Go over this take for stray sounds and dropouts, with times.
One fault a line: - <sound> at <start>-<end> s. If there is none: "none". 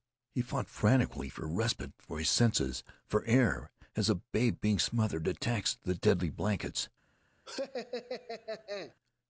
- laugh at 7.5-8.9 s